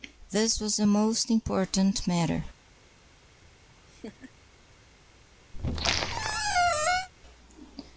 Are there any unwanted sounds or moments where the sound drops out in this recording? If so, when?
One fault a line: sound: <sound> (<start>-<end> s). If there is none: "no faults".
sound: laugh (3.6-4.3 s)
sound: squeak (5.5-7.1 s)